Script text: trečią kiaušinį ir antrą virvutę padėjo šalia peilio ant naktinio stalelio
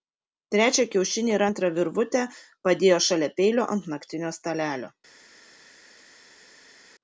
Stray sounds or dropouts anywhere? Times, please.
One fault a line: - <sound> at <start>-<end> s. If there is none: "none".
none